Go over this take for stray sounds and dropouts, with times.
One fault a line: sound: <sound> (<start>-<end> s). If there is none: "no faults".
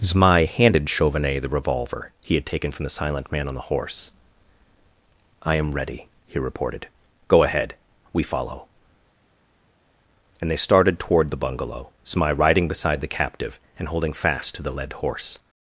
no faults